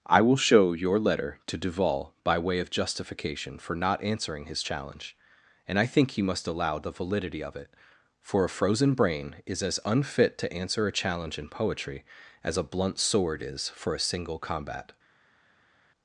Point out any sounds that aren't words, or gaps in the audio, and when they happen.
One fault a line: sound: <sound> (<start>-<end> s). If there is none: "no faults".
no faults